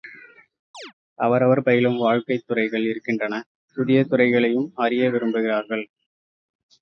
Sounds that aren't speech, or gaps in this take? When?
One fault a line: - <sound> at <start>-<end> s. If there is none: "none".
- chirp at 0.7-0.9 s